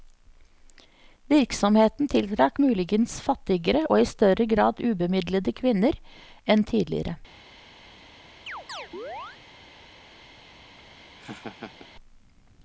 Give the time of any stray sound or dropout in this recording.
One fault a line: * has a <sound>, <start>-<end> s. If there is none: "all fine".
* has a chirp, 8.5-9.4 s
* has a laugh, 10.8-11.9 s